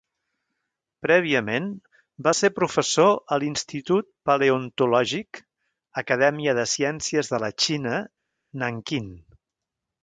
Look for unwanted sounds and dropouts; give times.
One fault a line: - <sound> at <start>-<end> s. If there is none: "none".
none